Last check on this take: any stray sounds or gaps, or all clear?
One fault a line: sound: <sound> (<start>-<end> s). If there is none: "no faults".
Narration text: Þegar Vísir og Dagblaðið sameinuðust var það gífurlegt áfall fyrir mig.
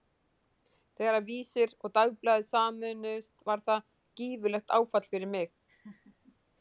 sound: laugh (5.7-6.4 s)